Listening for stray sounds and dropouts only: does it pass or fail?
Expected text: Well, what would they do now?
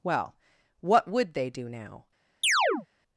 fail